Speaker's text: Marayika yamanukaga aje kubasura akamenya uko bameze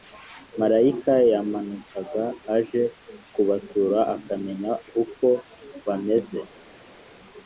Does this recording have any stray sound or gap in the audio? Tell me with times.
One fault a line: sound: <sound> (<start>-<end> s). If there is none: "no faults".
no faults